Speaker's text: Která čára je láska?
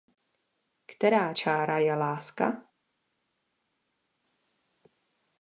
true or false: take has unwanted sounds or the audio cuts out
false